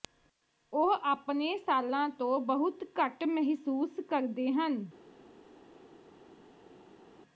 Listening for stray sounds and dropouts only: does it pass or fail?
pass